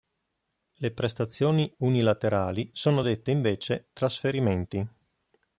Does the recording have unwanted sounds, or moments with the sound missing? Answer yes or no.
no